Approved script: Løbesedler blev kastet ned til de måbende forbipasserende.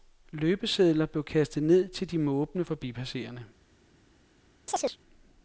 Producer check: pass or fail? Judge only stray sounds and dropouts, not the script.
fail